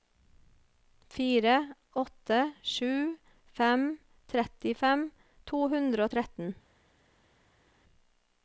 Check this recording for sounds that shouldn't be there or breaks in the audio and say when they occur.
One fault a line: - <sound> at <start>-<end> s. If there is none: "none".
none